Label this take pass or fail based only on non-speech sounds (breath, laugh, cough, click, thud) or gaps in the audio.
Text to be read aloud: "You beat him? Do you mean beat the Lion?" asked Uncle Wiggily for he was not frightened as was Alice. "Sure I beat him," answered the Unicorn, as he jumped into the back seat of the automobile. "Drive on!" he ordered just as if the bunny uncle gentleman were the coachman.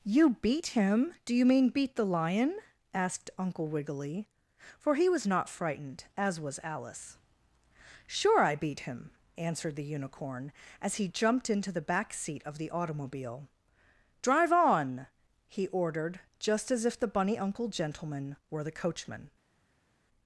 pass